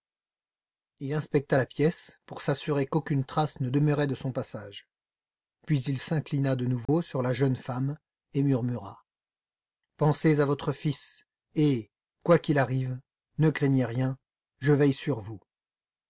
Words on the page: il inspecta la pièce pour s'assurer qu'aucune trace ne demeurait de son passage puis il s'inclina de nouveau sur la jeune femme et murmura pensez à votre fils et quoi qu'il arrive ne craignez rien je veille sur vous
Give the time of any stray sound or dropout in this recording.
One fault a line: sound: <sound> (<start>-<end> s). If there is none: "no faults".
sound: dropout (6.9-6.9 s)